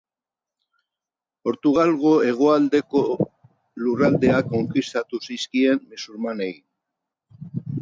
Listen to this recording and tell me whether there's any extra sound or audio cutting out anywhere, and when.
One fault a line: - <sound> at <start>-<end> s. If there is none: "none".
none